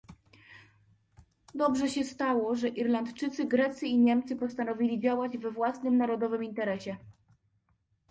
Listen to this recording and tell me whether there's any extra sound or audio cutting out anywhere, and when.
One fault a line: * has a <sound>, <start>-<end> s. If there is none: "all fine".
all fine